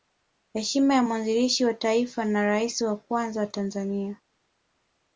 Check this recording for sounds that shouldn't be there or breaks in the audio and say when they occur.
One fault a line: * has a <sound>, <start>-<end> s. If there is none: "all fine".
all fine